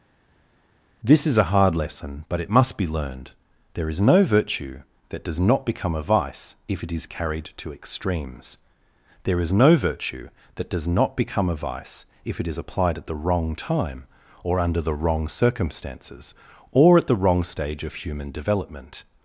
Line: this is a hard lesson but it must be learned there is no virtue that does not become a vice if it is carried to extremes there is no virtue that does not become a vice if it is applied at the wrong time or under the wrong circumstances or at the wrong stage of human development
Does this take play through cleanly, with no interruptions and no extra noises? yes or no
yes